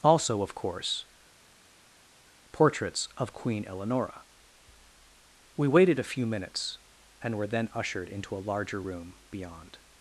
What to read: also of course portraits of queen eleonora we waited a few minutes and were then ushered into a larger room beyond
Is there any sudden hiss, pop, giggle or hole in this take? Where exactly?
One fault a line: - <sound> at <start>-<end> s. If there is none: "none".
none